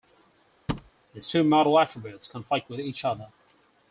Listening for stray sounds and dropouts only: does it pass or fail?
fail